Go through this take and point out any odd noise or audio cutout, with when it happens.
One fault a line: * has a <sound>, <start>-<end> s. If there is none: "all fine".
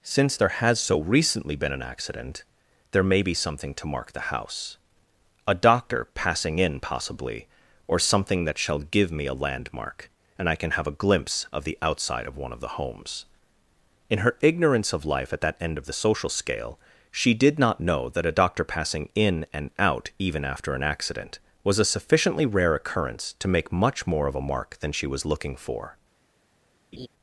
* has a laugh, 26.9-27.1 s